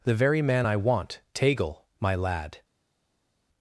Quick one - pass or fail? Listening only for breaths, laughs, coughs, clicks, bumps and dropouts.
pass